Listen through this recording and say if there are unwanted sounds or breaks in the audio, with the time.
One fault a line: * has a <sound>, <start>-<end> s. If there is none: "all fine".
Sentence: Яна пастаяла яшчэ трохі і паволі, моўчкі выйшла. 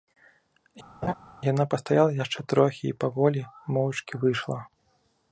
* has a laugh, 1.0-1.1 s